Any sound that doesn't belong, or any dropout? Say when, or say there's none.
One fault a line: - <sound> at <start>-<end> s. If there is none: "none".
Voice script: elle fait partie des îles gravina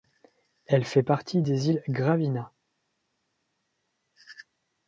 none